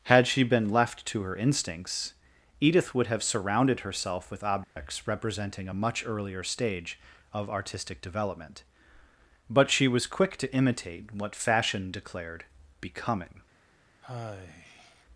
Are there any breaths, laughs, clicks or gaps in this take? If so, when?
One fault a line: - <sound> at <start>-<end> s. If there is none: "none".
- dropout at 4.6-4.8 s
- sigh at 14.0-15.0 s